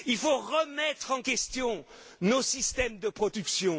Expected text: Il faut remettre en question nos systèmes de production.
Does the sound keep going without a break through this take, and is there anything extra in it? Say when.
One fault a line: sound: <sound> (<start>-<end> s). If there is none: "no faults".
no faults